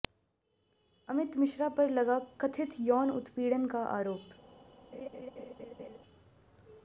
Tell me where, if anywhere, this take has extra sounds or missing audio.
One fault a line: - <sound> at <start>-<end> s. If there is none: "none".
- laugh at 4.9-6.0 s